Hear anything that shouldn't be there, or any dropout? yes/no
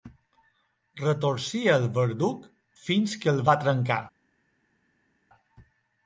no